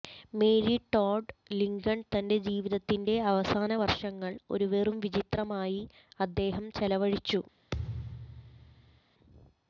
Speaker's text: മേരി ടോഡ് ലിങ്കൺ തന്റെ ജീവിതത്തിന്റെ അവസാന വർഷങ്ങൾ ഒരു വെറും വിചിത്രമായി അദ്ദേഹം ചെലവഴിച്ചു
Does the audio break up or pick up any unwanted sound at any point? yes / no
yes